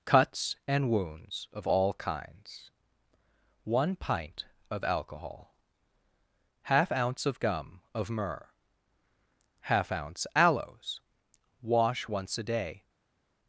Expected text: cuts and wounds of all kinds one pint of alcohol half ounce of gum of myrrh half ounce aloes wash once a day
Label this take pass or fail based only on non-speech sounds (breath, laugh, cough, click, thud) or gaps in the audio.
pass